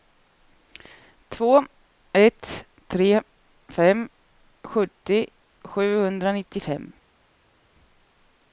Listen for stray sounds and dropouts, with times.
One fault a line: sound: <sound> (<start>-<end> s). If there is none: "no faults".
no faults